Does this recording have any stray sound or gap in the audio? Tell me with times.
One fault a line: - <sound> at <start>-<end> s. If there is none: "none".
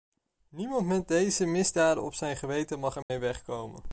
- dropout at 3.0-3.1 s